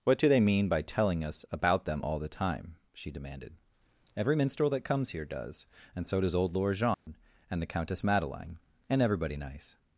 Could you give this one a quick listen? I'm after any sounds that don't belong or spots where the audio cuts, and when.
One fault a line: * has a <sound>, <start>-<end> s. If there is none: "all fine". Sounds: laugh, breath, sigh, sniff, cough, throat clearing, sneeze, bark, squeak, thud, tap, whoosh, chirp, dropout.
* has a dropout, 6.9-7.1 s